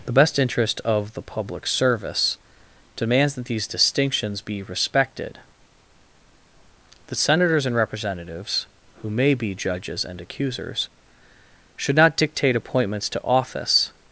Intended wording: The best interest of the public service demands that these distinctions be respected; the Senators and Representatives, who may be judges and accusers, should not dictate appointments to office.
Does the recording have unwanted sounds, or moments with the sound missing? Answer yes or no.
no